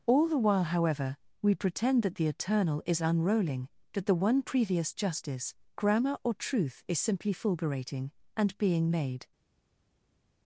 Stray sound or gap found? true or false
false